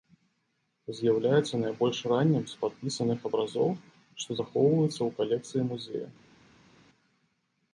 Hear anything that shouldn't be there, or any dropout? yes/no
no